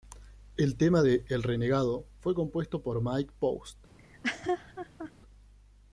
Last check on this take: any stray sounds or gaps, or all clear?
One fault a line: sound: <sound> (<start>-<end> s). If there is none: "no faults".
sound: laugh (4.0-5.1 s)